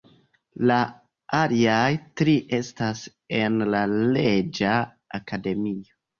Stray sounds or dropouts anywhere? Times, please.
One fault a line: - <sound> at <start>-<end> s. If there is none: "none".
none